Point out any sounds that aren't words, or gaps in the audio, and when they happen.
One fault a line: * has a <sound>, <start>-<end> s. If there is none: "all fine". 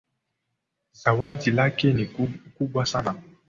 * has a dropout, 1.2-1.4 s